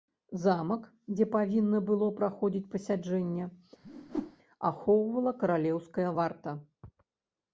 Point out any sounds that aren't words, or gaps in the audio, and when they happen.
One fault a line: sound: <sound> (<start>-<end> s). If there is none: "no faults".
sound: whoosh (3.8-4.4 s)